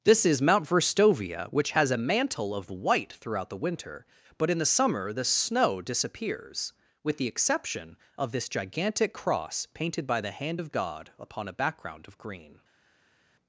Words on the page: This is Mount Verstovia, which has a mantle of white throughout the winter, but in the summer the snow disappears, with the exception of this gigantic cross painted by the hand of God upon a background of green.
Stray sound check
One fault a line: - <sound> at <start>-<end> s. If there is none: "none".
none